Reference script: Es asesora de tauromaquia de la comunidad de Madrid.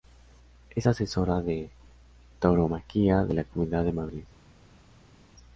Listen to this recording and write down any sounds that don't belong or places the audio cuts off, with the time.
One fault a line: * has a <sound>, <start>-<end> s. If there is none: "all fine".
all fine